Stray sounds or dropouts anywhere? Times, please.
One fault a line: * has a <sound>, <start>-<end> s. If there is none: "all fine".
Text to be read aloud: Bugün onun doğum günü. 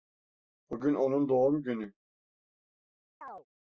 * has a chirp, 3.2-3.5 s